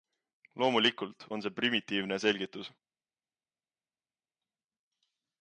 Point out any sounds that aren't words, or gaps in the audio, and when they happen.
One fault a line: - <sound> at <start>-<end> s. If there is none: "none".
none